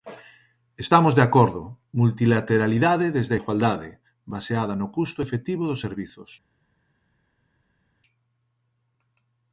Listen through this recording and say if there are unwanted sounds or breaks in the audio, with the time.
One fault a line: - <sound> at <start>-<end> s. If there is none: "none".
none